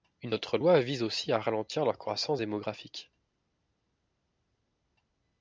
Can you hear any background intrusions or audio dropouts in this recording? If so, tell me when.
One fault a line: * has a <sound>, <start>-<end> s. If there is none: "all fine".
all fine